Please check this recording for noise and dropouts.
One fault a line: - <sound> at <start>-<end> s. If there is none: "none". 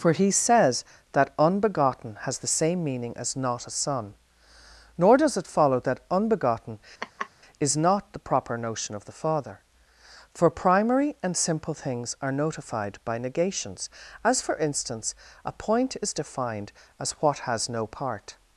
- laugh at 7.0-7.3 s